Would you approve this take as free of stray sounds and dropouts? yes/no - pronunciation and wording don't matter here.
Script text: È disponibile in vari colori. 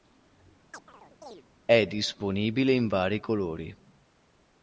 no